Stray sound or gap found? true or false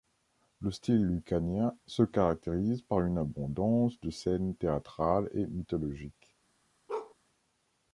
true